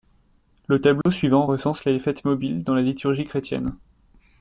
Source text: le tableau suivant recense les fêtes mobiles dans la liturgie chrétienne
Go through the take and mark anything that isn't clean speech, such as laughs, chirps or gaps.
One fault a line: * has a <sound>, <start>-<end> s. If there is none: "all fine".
* has a dropout, 1.0-1.1 s